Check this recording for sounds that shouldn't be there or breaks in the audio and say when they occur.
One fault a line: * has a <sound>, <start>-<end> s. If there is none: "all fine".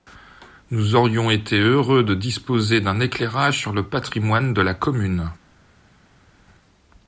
all fine